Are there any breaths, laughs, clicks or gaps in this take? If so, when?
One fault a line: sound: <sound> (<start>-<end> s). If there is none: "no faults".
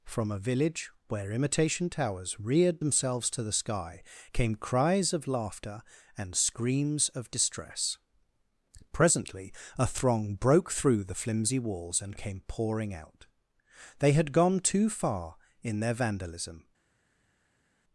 no faults